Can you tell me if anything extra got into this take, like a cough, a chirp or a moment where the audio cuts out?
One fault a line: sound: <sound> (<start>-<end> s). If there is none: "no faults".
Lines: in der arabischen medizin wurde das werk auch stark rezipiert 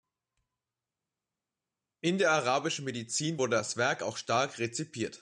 no faults